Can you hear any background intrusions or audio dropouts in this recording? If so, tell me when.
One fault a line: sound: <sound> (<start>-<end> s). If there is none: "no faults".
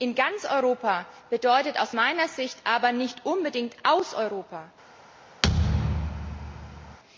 sound: thud (5.4-7.0 s)